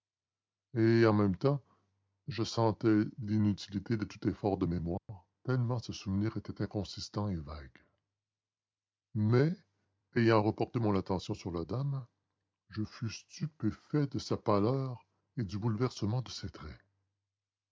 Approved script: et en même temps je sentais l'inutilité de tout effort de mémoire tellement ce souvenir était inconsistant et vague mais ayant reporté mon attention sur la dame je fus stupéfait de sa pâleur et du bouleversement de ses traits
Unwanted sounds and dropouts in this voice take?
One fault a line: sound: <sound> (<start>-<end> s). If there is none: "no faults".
sound: dropout (5.0-5.1 s)